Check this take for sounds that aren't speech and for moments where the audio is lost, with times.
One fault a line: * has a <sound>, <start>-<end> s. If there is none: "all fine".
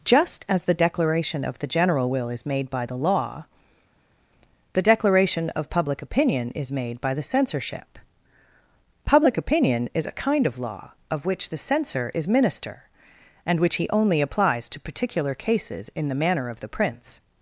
all fine